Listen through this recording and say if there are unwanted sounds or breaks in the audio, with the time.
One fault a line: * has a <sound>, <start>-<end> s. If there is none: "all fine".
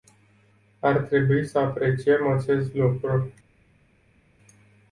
all fine